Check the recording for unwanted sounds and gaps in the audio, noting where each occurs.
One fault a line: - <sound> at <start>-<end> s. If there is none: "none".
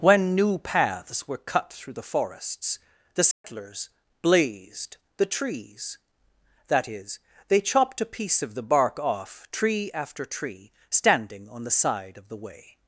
- dropout at 3.3-3.4 s